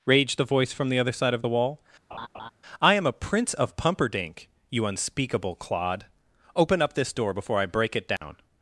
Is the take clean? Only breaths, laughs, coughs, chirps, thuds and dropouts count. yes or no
no